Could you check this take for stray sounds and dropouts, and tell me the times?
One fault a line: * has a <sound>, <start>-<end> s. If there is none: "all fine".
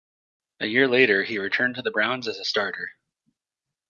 all fine